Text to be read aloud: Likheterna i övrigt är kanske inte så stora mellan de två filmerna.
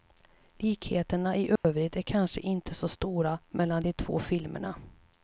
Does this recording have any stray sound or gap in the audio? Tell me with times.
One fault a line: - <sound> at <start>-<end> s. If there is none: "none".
- dropout at 1.6-1.6 s